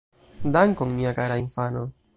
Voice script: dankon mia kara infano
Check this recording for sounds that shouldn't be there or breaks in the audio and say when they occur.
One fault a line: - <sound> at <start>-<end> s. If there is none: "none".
none